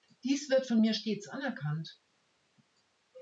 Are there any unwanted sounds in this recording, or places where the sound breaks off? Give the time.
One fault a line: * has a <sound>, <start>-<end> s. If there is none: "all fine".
all fine